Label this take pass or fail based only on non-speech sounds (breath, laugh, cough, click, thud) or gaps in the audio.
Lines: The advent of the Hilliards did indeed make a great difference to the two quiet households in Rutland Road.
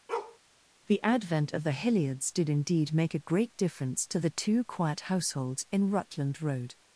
fail